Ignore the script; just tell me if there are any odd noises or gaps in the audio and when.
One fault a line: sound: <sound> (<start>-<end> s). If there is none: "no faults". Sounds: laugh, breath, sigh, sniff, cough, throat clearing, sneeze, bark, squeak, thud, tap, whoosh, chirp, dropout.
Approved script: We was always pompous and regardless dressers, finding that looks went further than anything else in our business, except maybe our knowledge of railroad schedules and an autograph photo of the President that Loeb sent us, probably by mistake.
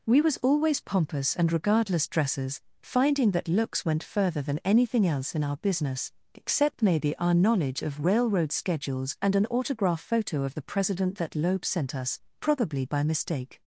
no faults